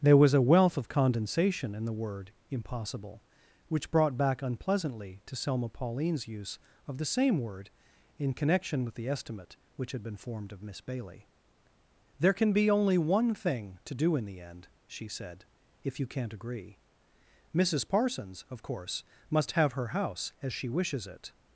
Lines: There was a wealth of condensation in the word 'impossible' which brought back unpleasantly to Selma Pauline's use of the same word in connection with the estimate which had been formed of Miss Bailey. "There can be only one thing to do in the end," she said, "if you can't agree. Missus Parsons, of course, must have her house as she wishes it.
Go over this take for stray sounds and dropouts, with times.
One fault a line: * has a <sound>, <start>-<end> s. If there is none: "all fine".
all fine